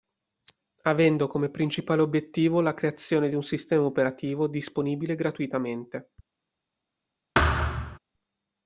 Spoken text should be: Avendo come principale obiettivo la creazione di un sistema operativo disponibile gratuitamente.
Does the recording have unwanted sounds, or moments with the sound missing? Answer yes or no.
yes